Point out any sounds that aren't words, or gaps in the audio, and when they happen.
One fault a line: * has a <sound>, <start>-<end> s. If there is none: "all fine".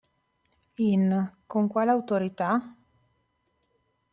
all fine